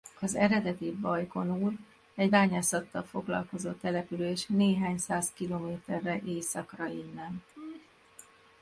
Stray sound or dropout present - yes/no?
yes